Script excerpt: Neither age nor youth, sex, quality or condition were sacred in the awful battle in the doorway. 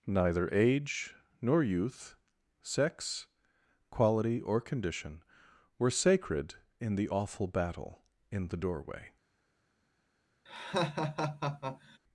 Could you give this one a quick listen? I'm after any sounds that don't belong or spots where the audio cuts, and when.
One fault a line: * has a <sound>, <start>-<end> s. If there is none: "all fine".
* has a laugh, 10.5-12.0 s